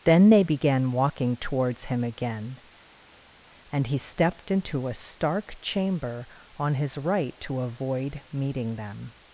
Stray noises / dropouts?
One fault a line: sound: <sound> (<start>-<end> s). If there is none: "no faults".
no faults